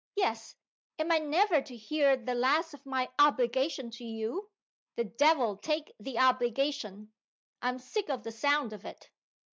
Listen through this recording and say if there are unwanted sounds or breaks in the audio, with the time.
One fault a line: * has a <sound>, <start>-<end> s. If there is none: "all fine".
all fine